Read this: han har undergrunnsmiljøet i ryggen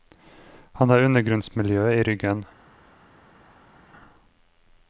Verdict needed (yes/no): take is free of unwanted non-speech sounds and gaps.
yes